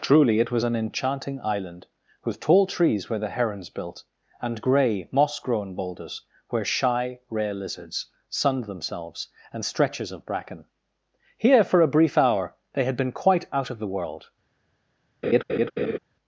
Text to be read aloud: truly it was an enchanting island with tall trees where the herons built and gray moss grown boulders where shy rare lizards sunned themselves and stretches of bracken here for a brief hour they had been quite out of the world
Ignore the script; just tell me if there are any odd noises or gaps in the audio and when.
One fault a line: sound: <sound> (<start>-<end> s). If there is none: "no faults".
sound: laugh (15.2-16.0 s)